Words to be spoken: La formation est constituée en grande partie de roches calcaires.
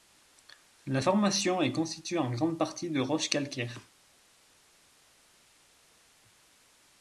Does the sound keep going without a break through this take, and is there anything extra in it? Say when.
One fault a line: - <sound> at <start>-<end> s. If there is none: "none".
none